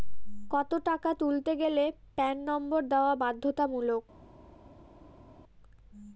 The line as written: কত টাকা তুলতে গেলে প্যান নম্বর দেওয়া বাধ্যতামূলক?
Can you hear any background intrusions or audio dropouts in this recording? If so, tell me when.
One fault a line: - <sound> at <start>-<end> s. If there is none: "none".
none